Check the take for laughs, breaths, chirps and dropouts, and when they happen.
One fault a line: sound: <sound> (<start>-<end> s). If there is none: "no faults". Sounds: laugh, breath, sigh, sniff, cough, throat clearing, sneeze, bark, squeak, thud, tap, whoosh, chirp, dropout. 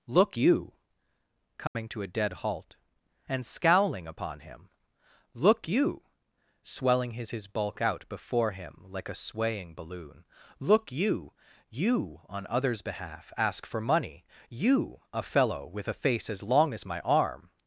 sound: dropout (1.7-1.7 s)